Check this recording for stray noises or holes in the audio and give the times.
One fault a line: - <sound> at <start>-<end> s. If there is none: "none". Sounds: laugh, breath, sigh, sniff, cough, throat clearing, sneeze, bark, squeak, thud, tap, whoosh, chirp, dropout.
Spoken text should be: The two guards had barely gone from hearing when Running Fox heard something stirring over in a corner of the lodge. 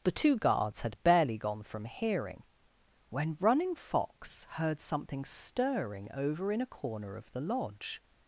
none